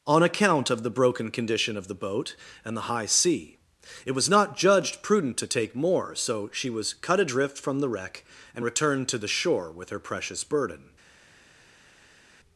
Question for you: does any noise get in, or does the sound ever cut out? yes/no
no